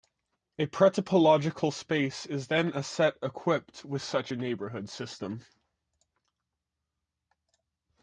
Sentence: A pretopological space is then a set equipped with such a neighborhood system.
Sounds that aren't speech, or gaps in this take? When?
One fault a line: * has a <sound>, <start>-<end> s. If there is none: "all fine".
all fine